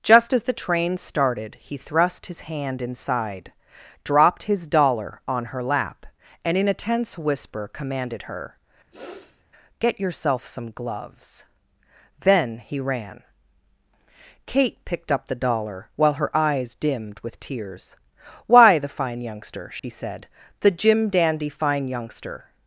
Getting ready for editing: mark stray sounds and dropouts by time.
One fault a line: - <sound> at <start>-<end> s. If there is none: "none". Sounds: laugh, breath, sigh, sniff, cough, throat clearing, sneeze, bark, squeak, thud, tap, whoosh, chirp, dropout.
- sniff at 8.9-9.4 s
- dropout at 19.8-19.8 s